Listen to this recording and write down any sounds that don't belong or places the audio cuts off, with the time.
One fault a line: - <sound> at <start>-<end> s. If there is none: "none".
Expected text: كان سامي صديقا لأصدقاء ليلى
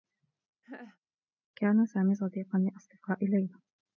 - laugh at 0.6-1.0 s